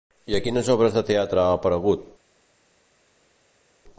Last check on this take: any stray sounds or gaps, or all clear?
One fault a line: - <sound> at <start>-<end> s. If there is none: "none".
none